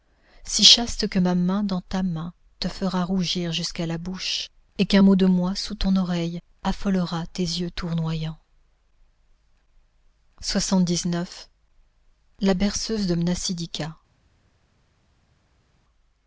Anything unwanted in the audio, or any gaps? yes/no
no